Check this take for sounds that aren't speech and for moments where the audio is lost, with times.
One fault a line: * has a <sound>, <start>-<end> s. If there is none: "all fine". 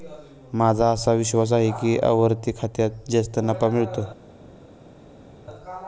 all fine